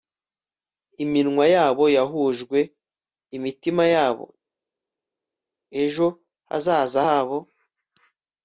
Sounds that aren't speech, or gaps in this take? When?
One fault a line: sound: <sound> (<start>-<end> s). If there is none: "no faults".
no faults